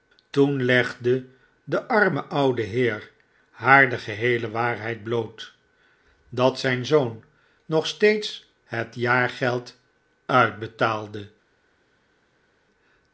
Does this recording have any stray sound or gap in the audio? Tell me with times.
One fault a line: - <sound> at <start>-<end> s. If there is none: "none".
none